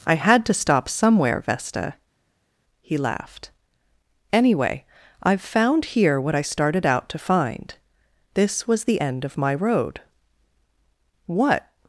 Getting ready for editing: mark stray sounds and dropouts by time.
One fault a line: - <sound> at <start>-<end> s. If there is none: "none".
none